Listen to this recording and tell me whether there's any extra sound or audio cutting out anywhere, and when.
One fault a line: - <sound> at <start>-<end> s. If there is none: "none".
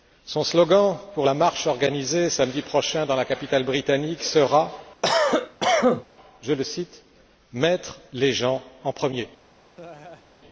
- cough at 5.0-6.1 s
- laugh at 9.7-10.2 s